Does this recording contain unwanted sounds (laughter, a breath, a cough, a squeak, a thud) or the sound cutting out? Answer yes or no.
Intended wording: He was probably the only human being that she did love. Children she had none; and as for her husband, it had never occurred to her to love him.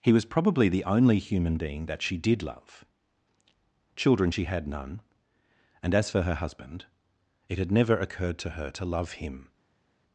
no